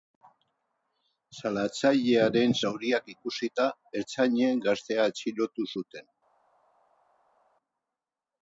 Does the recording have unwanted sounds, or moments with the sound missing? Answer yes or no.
no